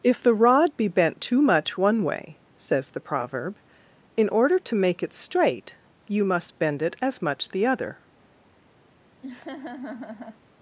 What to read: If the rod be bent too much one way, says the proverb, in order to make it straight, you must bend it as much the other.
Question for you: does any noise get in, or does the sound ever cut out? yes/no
yes